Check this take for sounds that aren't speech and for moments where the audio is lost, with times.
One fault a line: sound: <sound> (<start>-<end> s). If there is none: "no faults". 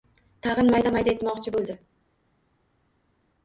no faults